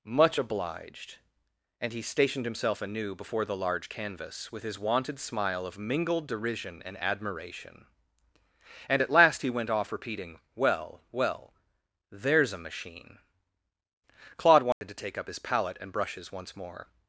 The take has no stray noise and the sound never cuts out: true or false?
false